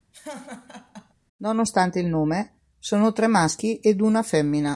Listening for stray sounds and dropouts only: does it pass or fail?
fail